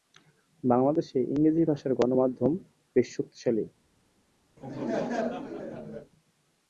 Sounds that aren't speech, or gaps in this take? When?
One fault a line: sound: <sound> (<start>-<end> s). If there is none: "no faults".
sound: laugh (4.6-6.1 s)